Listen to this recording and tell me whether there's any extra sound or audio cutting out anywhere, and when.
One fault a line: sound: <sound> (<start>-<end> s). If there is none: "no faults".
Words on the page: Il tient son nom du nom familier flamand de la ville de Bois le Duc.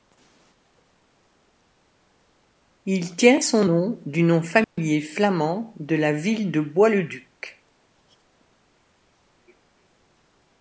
sound: dropout (4.6-4.8 s)